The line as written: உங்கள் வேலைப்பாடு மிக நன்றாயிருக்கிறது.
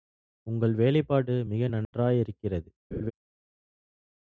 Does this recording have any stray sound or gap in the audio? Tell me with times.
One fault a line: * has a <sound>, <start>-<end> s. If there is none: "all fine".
* has a dropout, 1.8-1.9 s
* has a laugh, 2.9-3.1 s